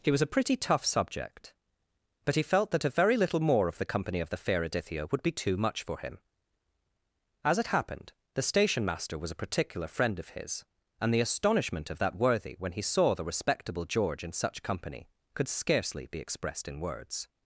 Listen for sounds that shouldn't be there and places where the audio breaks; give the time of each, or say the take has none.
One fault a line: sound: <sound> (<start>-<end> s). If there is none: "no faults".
no faults